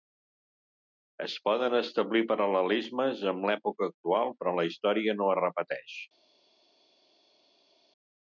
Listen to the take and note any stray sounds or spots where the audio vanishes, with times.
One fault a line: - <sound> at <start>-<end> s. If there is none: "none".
none